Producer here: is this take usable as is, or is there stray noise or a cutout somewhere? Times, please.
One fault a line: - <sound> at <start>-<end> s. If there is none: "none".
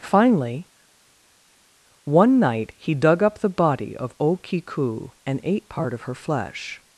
none